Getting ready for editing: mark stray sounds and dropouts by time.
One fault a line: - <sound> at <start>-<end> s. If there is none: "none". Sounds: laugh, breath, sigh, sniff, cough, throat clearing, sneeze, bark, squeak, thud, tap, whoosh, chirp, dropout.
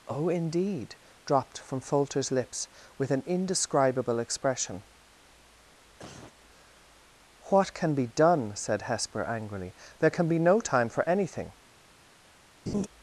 - cough at 6.0-6.3 s
- laugh at 12.7-12.9 s